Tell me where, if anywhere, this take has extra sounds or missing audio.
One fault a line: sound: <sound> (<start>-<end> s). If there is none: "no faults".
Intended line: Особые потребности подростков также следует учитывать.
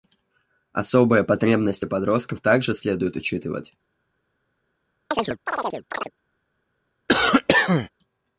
sound: chirp (5.1-6.1 s)
sound: cough (7.1-7.9 s)